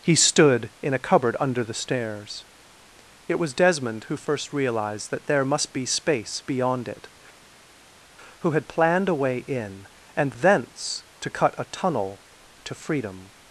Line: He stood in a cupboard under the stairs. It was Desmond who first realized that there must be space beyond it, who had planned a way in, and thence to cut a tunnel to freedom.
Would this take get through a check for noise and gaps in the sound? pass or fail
pass